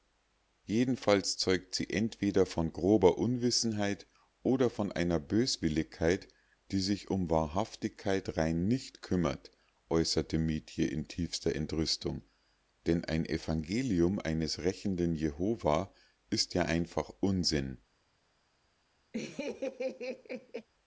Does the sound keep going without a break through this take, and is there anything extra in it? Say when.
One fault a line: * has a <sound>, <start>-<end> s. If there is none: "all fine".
* has a laugh, 19.1-20.7 s